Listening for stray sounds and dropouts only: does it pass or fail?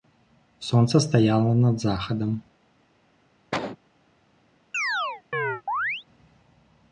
fail